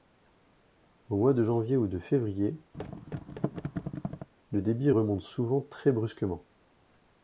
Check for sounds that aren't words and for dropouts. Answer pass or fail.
fail